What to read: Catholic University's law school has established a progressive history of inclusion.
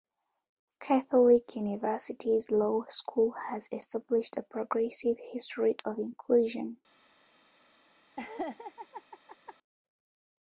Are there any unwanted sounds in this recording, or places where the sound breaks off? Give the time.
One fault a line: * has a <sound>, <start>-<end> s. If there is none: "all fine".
* has a laugh, 8.2-9.6 s